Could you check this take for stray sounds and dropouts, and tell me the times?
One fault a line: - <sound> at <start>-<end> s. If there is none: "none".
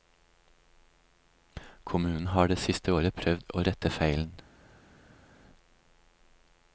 none